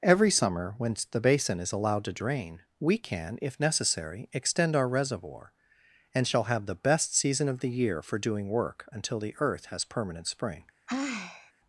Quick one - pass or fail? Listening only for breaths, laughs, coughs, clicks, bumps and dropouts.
fail